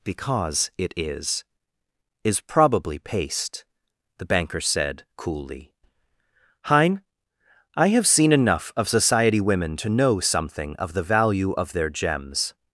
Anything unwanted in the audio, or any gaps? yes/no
no